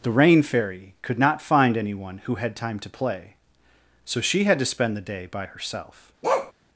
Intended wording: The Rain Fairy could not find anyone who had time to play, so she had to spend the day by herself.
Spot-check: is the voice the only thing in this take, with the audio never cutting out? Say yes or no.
no